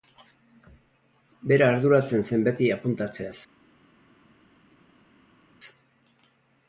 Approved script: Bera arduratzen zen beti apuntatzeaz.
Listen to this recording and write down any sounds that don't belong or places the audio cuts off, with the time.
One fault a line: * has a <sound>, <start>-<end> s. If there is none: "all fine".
all fine